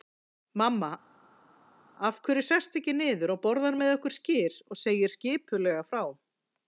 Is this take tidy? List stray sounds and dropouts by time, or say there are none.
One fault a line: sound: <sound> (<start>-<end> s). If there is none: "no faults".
no faults